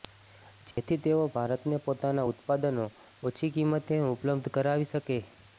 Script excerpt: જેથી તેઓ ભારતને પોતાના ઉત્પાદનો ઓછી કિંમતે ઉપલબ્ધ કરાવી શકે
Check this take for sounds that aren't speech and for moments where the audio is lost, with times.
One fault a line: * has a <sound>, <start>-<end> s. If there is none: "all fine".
* has a dropout, 0.7-0.8 s